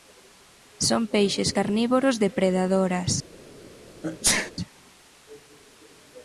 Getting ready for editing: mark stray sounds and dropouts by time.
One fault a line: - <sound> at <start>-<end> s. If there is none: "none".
- sneeze at 4.0-4.5 s